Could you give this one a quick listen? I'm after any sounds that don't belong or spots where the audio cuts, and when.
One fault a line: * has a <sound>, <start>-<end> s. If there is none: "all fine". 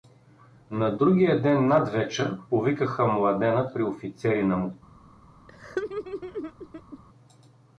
* has a laugh, 5.5-7.0 s